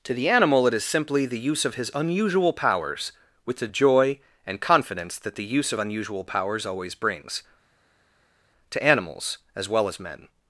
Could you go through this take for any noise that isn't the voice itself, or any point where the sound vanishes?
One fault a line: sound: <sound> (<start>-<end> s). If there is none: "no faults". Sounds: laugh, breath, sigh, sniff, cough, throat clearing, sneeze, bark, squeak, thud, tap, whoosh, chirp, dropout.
no faults